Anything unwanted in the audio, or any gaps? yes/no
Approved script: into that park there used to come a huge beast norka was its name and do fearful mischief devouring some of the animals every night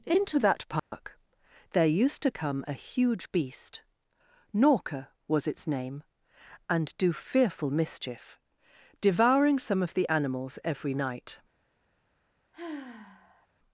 yes